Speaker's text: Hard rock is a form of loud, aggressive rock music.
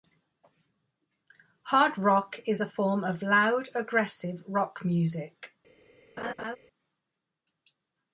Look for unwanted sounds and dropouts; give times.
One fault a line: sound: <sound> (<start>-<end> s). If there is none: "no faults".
sound: laugh (6.2-6.6 s)